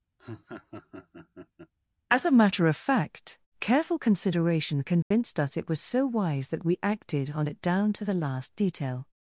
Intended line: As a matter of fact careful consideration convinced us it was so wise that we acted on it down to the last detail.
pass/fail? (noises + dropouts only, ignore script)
fail